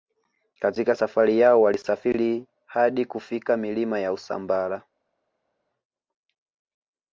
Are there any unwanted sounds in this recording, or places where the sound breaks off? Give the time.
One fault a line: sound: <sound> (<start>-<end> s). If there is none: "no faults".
no faults